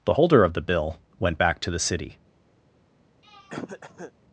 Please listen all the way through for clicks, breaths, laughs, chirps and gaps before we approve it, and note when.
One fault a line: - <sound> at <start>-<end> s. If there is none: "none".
- throat clearing at 3.2-4.1 s